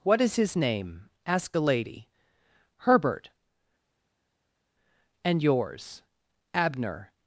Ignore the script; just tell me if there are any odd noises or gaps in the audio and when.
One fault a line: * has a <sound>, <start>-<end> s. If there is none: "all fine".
all fine